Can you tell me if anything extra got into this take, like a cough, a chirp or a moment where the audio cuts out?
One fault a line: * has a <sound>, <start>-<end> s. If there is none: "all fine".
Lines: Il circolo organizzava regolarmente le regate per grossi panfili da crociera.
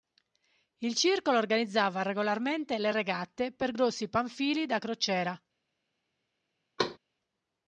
* has a thud, 6.8-7.0 s